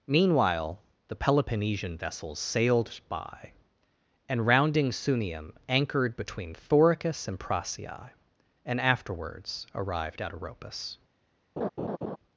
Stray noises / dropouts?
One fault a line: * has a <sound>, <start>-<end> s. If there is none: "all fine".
* has a laugh, 11.6-12.2 s